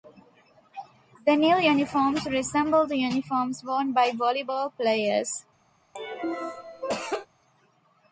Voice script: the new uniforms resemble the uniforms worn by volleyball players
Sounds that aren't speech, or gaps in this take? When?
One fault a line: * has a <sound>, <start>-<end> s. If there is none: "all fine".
* has a cough, 6.0-7.3 s